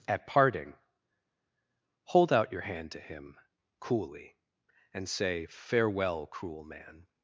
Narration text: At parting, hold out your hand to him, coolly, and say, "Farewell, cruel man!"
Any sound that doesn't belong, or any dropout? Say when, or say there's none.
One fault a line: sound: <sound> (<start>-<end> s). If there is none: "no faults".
no faults